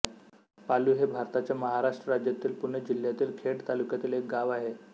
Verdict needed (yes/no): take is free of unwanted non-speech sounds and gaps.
yes